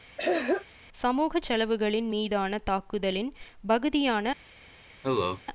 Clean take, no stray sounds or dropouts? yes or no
no